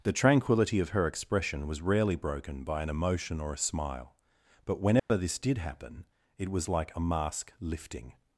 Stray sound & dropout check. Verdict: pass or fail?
fail